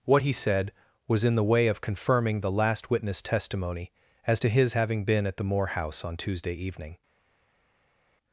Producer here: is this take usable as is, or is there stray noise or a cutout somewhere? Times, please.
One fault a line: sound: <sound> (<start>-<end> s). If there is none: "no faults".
no faults